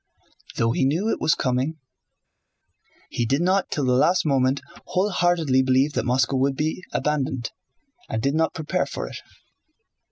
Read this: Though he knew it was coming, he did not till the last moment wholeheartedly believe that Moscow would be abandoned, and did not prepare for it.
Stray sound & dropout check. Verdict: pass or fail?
pass